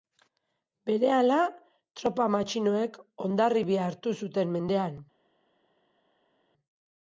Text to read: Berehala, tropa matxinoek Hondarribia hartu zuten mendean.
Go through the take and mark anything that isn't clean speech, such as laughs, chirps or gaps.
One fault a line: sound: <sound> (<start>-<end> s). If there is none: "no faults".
no faults